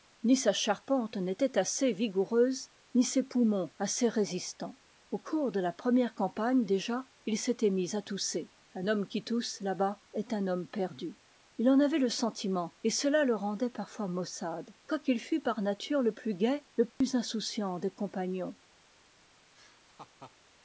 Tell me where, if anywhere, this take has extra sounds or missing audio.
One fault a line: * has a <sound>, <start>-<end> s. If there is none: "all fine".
* has a dropout, 16.9-17.0 s
* has a laugh, 19.5-20.4 s